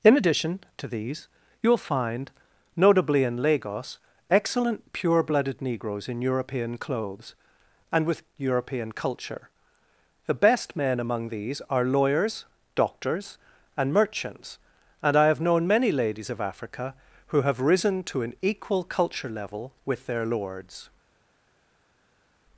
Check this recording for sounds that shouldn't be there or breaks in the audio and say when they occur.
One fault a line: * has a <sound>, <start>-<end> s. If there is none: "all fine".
all fine